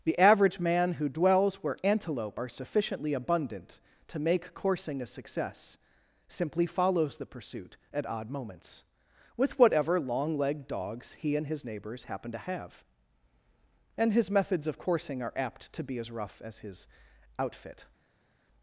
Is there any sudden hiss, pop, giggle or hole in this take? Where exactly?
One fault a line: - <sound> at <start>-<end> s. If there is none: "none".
none